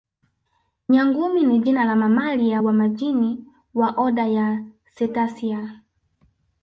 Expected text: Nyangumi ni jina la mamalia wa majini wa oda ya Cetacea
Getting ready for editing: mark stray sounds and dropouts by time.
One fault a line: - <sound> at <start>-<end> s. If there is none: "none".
none